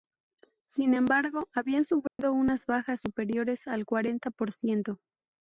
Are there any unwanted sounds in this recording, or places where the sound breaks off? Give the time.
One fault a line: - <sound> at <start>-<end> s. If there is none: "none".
- dropout at 2.1-2.2 s